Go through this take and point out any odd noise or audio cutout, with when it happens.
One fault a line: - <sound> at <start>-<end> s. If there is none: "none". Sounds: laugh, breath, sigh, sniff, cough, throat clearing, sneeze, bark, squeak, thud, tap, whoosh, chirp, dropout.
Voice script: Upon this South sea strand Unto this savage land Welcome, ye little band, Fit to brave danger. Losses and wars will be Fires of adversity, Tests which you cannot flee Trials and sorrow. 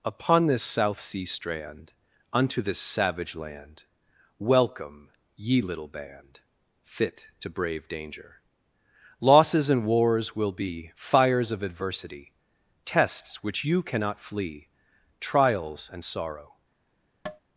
- tap at 17.3-17.4 s